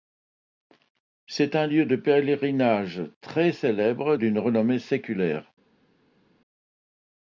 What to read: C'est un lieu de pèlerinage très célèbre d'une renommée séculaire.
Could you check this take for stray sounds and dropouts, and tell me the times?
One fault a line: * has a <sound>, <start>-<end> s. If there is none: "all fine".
all fine